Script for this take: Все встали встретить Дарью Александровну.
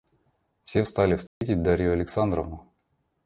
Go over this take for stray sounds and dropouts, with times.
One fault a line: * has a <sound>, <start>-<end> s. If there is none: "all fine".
* has a dropout, 1.3-1.4 s